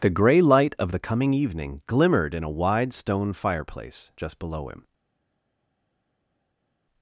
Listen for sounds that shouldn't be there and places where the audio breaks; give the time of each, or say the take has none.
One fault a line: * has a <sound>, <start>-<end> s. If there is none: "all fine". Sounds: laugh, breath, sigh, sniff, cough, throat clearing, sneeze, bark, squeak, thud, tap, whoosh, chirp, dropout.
all fine